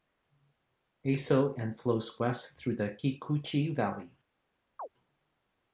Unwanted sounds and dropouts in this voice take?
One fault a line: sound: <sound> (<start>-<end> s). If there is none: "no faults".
sound: chirp (4.8-4.9 s)